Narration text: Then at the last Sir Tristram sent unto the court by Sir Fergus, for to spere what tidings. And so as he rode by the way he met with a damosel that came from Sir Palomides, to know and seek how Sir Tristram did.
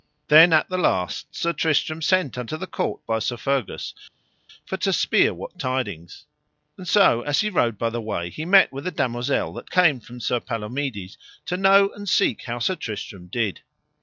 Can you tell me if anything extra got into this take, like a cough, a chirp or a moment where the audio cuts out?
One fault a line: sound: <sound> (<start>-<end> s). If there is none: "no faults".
no faults